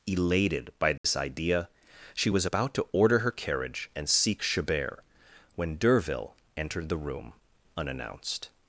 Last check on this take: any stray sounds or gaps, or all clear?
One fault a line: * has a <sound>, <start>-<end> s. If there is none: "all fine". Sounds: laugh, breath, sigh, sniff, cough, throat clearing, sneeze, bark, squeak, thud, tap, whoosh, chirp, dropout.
* has a dropout, 1.0-1.0 s